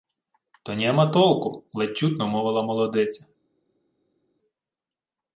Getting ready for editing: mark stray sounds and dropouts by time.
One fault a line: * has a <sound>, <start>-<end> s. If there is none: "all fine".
all fine